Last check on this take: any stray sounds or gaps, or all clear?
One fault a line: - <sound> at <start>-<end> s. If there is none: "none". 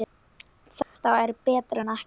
- dropout at 0.8-1.0 s